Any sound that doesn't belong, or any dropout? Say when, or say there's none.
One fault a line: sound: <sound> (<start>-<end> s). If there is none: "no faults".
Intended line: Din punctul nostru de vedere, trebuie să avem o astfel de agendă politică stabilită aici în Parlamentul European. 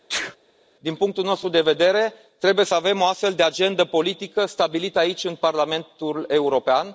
sound: sneeze (0.1-0.4 s)